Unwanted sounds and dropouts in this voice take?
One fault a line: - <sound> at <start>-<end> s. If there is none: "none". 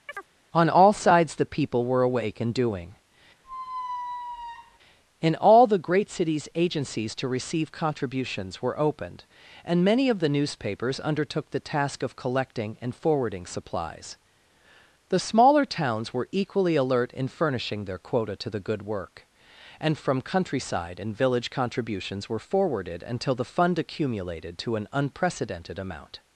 - chirp at 0.1-0.3 s
- squeak at 3.4-4.8 s